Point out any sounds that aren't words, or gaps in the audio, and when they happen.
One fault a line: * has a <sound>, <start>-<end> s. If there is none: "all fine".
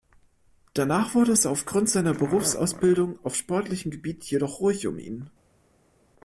all fine